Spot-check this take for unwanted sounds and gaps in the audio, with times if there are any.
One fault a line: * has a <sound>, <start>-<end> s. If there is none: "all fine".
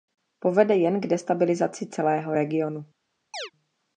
* has a chirp, 3.3-3.5 s